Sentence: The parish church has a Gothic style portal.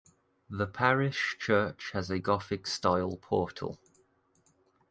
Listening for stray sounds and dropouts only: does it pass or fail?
pass